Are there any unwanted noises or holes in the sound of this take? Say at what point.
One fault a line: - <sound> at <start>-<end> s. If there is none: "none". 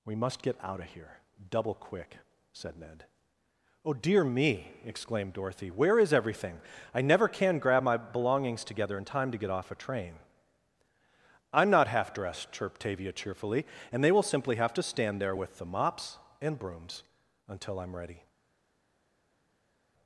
none